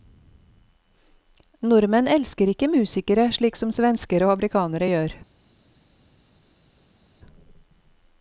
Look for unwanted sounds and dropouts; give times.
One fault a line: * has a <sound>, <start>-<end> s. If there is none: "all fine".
all fine